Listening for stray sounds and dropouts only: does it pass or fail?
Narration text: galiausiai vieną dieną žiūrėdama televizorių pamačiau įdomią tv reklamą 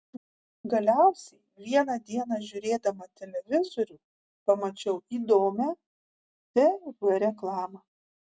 pass